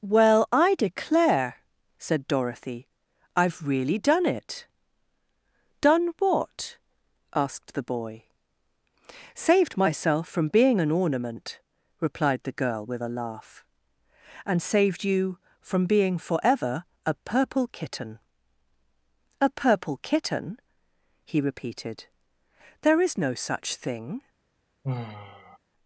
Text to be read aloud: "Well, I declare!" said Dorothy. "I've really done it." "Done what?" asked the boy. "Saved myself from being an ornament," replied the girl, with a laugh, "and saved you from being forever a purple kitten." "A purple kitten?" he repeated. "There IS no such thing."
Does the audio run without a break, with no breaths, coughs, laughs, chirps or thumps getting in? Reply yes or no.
no